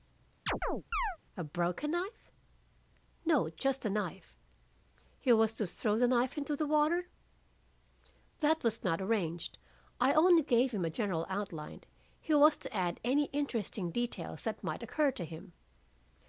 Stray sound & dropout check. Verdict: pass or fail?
fail